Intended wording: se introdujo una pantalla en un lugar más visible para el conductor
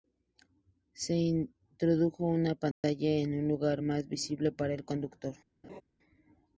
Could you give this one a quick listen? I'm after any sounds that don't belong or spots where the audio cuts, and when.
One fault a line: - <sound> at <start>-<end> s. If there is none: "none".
- dropout at 2.7-2.8 s
- laugh at 5.6-5.8 s